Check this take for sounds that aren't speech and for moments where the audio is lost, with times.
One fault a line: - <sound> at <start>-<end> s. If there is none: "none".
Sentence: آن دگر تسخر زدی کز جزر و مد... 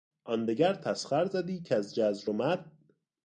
none